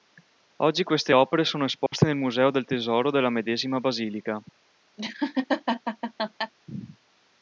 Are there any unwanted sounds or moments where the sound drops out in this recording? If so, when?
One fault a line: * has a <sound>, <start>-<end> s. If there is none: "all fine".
* has a dropout, 1.9-1.9 s
* has a laugh, 5.0-6.5 s